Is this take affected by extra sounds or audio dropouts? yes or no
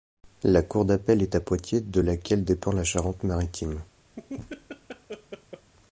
yes